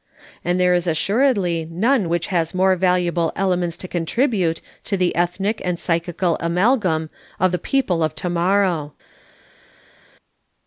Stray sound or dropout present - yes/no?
no